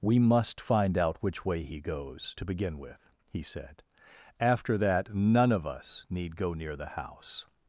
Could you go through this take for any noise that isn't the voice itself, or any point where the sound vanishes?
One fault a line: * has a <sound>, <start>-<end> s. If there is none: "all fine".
all fine